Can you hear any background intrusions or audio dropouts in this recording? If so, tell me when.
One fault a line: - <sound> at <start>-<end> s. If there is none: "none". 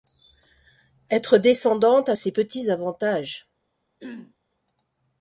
- throat clearing at 4.0-4.3 s